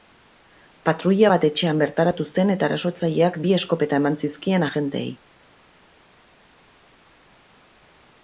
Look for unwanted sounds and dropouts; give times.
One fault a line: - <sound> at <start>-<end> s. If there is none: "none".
none